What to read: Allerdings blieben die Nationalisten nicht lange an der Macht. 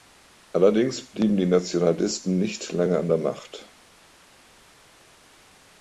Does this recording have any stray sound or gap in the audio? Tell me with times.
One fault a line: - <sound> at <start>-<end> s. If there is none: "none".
none